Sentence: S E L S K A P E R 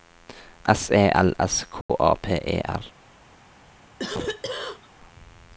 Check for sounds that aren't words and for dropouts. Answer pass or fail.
fail